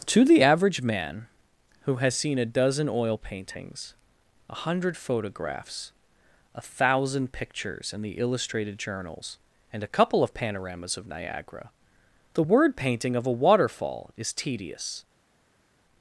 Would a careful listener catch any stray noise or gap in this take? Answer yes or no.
no